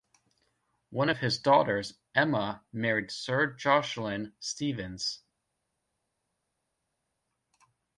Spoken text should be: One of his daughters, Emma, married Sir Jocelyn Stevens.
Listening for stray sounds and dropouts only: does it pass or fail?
pass